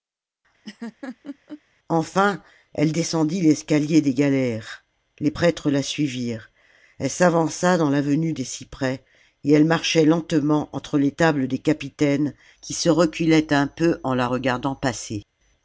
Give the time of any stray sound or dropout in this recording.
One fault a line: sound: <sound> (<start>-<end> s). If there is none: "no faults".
sound: laugh (0.6-1.6 s)